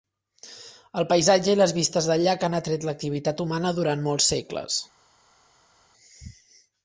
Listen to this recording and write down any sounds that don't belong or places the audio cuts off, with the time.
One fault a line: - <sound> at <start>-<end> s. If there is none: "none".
none